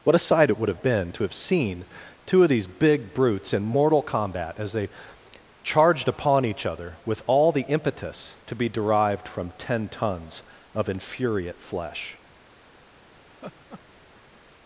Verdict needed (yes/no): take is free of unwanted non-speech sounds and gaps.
no